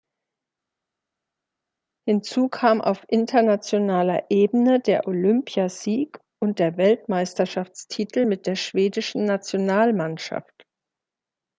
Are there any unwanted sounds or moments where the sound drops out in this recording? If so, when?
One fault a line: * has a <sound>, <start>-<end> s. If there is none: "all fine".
all fine